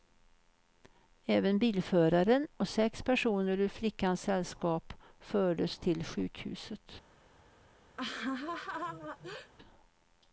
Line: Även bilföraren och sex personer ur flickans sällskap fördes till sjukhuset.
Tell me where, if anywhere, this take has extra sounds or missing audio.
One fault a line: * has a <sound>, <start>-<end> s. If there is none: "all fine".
* has a laugh, 8.0-9.5 s